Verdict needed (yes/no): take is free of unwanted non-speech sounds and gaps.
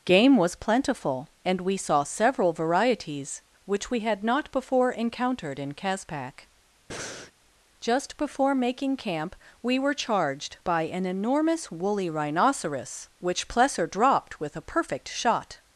no